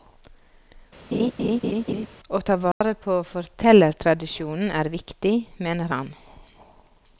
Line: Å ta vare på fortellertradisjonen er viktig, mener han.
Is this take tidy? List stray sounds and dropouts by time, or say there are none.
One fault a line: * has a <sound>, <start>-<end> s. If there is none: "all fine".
* has a laugh, 1.1-2.1 s
* has a dropout, 2.7-2.8 s